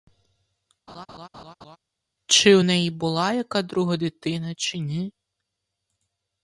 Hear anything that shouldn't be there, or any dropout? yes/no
yes